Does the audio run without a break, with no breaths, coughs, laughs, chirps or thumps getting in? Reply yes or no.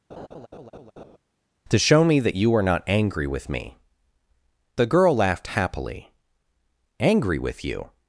no